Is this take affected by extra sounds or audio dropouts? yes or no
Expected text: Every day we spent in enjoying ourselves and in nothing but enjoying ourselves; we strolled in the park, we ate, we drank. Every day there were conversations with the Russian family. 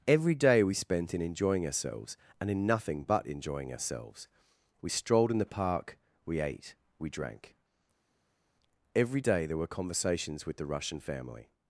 no